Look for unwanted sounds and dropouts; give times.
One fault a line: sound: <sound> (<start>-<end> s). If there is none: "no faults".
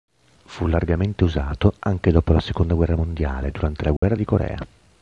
sound: dropout (4.0-4.0 s)